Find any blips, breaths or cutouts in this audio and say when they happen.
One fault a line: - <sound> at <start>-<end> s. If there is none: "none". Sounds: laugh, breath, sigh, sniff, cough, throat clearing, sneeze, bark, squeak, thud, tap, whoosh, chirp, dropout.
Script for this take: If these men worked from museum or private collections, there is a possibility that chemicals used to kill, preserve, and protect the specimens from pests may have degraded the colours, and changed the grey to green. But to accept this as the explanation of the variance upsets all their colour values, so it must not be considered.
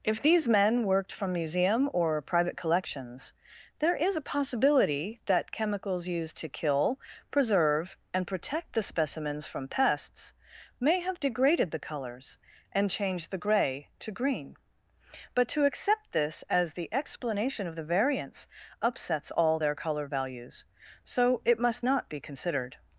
none